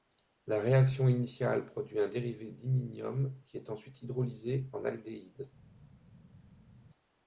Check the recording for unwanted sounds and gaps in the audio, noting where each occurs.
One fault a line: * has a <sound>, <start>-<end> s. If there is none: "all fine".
all fine